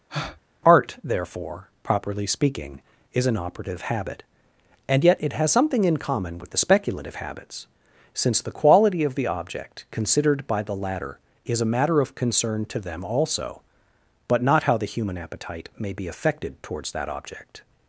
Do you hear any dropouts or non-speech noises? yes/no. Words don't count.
yes